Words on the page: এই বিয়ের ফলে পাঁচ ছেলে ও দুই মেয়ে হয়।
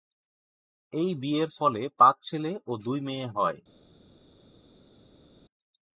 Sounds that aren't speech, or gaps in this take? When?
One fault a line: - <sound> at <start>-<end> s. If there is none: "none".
none